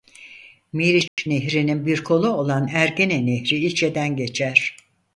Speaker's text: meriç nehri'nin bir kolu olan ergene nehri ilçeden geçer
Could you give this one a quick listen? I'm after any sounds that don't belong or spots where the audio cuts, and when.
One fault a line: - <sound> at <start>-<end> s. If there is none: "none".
- dropout at 1.1-1.2 s